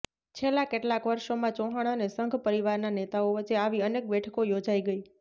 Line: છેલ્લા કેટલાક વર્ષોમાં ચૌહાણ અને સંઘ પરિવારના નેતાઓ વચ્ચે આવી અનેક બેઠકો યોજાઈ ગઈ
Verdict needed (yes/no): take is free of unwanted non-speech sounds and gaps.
yes